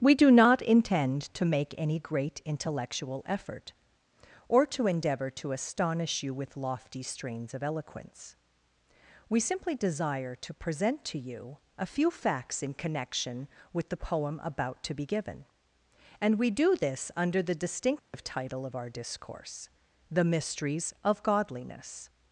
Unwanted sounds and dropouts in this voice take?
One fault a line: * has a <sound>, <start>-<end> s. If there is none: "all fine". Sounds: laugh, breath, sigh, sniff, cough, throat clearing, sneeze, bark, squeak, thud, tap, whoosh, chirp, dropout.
* has a dropout, 18.0-18.1 s